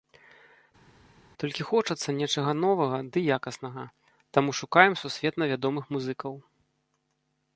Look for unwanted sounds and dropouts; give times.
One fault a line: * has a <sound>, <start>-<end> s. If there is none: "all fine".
all fine